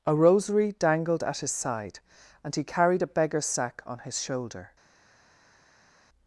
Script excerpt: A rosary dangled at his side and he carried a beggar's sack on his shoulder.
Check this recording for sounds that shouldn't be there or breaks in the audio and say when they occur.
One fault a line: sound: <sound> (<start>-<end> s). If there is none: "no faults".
no faults